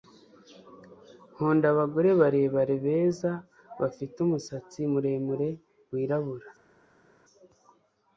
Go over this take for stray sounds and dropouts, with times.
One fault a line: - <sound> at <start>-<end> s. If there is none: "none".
none